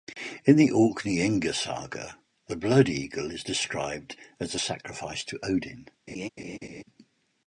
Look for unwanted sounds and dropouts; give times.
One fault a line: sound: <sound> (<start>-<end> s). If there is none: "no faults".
sound: laugh (6.1-6.8 s)